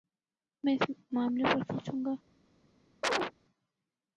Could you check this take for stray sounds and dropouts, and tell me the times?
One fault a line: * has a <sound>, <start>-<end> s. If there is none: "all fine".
* has a chirp, 3.0-3.3 s